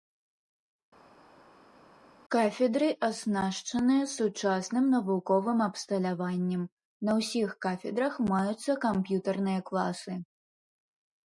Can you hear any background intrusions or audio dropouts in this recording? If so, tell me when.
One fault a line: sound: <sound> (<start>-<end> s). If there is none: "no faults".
no faults